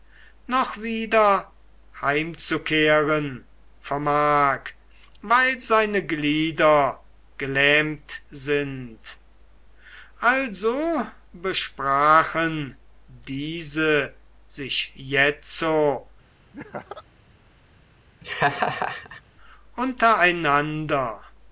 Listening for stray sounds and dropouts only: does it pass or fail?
fail